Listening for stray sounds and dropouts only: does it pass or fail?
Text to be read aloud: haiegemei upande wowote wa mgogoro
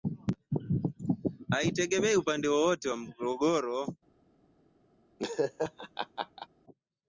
fail